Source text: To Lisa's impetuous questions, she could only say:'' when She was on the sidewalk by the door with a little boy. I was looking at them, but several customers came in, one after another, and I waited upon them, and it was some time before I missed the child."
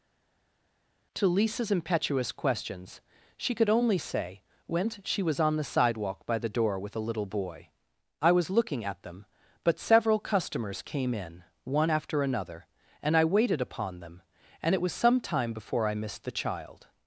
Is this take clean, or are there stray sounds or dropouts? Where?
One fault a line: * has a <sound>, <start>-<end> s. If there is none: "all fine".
all fine